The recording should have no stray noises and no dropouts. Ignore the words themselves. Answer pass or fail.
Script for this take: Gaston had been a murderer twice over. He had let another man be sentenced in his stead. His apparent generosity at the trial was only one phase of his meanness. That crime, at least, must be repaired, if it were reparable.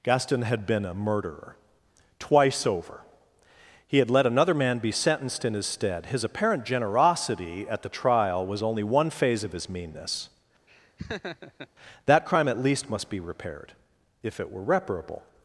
fail